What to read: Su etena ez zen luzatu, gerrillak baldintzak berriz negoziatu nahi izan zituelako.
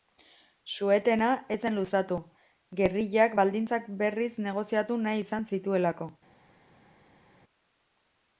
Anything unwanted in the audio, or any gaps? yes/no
no